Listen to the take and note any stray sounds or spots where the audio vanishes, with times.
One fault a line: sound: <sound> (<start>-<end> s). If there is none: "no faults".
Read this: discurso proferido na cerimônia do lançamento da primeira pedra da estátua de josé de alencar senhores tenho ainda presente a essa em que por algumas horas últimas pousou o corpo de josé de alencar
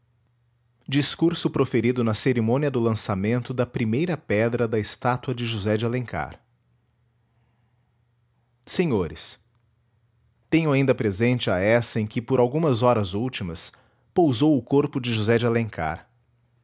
no faults